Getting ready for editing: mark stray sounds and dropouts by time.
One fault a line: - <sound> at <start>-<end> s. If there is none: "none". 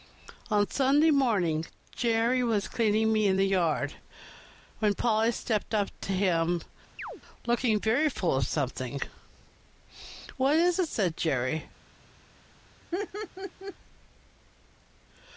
- chirp at 7.0-7.2 s
- laugh at 12.9-13.8 s